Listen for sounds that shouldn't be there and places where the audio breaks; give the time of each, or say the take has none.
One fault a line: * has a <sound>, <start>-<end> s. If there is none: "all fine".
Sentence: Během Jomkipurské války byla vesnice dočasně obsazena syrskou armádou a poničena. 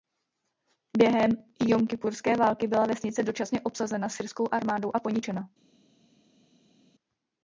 all fine